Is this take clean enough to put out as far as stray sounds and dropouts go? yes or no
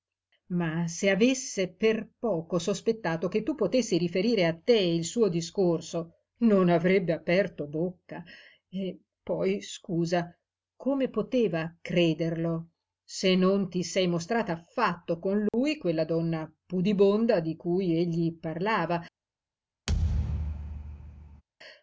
no